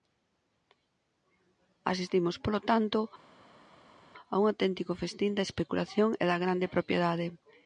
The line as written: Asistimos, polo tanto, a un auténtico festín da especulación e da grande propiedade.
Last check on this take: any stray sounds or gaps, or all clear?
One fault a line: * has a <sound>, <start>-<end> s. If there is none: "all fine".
all fine